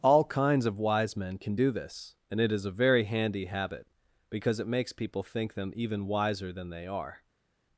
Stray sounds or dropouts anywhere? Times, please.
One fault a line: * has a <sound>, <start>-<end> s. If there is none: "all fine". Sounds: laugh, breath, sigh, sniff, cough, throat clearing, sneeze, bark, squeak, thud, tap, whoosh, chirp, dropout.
all fine